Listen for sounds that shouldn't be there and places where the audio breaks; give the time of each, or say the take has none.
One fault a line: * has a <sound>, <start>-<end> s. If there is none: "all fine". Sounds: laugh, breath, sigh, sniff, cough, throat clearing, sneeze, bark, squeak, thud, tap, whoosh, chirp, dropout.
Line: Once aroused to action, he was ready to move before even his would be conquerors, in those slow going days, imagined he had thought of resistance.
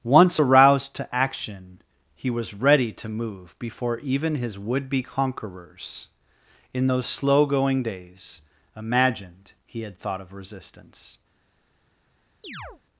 * has a chirp, 12.4-12.8 s